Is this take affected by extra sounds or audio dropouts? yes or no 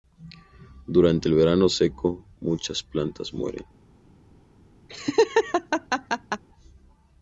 yes